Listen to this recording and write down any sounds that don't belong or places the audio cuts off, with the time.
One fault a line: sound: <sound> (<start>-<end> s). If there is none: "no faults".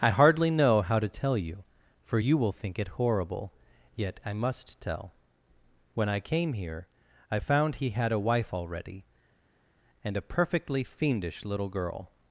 no faults